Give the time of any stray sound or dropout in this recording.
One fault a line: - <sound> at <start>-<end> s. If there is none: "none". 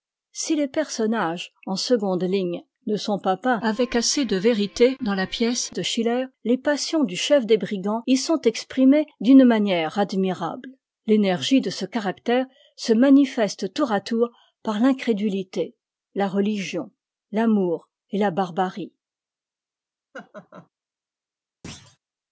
- laugh at 20.1-20.7 s
- thud at 21.6-22.0 s